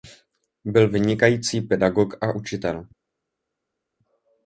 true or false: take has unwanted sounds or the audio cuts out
false